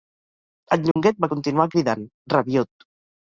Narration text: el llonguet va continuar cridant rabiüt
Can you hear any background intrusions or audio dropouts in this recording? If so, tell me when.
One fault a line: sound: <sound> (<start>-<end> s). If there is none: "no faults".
sound: dropout (0.9-1.0 s)